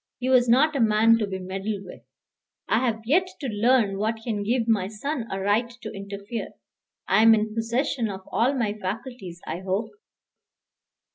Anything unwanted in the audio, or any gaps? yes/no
no